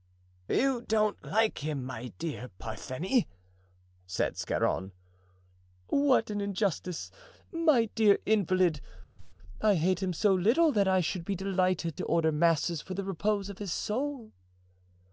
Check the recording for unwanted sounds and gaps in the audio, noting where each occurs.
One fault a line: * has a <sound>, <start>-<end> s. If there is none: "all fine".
* has a cough, 9.2-9.3 s